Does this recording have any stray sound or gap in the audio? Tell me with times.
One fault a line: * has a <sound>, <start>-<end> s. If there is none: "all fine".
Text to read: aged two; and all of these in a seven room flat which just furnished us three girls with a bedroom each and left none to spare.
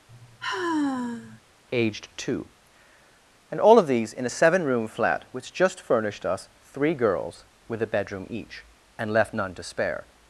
* has a sigh, 0.1-1.4 s